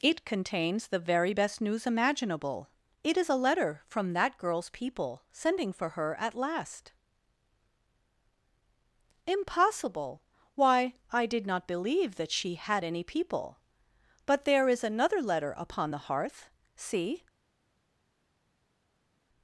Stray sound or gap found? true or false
false